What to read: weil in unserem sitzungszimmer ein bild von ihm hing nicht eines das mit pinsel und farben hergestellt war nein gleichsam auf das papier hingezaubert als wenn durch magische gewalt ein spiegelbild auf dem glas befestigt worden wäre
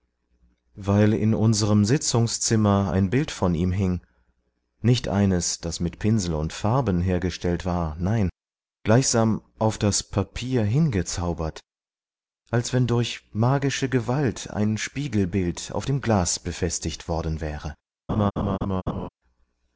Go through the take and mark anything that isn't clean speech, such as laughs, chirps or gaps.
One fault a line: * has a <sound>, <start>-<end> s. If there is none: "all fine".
* has a laugh, 18.1-19.1 s